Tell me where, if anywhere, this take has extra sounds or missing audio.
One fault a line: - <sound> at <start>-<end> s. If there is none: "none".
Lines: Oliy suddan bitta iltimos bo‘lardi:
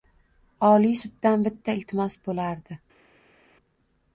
none